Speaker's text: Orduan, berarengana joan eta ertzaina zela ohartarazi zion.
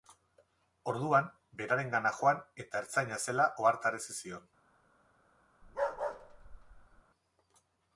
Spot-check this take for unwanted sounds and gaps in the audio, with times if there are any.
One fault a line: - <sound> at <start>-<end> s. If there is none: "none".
- bark at 5.6-7.0 s